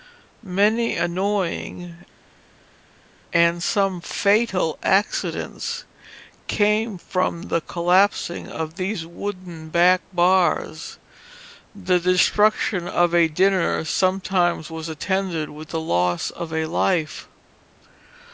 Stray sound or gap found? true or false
false